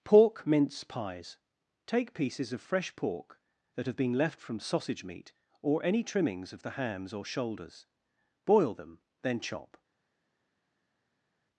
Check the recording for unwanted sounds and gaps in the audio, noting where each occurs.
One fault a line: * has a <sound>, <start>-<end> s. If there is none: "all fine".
all fine